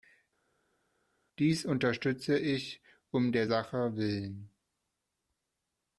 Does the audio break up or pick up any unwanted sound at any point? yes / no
no